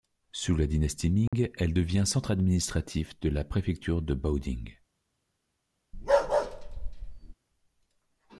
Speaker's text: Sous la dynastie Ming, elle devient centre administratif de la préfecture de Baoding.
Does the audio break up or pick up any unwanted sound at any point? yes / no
yes